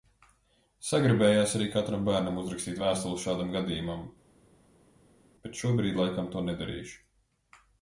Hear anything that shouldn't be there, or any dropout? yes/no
no